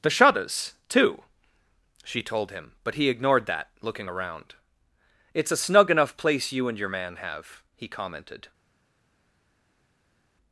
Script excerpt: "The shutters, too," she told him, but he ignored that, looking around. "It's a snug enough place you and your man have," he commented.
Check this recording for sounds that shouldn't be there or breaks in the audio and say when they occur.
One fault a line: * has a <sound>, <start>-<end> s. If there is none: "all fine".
all fine